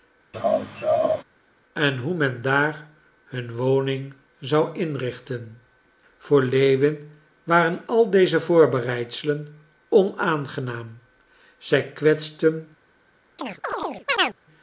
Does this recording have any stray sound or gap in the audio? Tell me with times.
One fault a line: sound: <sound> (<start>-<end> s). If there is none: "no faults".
sound: laugh (0.3-1.2 s)
sound: chirp (13.4-14.4 s)